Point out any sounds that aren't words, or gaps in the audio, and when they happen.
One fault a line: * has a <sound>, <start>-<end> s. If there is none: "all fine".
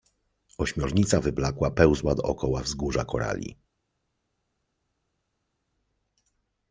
all fine